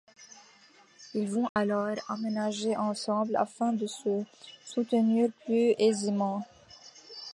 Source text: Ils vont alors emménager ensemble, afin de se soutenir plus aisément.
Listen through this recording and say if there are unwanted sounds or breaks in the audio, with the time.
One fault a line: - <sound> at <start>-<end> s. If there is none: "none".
- dropout at 1.5-1.6 s